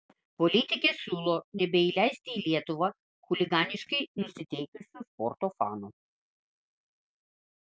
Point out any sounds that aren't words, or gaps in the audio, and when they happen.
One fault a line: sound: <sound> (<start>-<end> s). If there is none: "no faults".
no faults